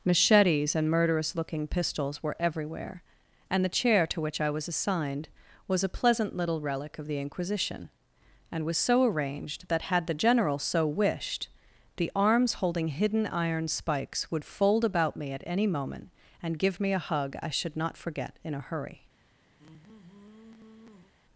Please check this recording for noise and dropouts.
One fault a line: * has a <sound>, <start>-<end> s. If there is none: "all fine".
* has a sigh, 19.6-21.1 s